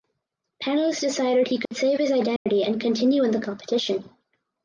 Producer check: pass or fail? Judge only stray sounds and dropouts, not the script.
fail